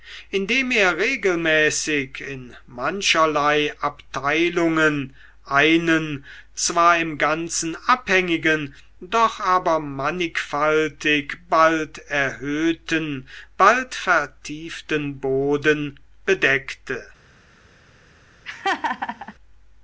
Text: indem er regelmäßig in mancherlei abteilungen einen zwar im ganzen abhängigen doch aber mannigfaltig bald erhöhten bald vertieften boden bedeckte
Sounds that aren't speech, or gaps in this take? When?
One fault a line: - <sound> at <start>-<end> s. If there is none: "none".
- laugh at 18.5-19.3 s